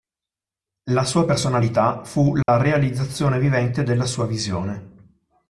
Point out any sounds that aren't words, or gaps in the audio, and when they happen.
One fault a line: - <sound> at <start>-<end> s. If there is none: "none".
- dropout at 2.4-2.5 s